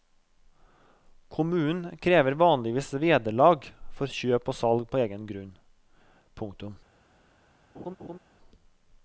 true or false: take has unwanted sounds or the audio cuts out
true